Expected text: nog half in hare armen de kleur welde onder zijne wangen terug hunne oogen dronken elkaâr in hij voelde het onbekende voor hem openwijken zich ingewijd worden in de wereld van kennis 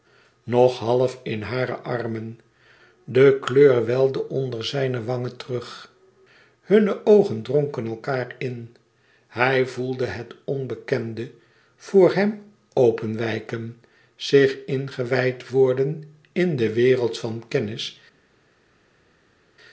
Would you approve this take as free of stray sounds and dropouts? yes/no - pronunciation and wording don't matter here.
yes